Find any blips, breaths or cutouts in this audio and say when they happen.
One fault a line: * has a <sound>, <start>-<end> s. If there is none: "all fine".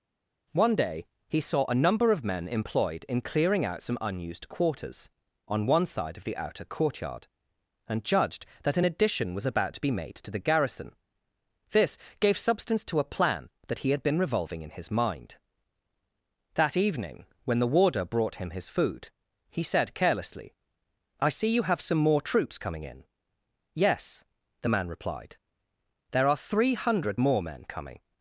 all fine